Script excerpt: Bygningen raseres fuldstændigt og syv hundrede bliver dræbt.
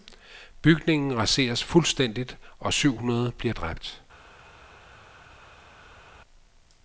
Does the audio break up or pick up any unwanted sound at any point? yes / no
no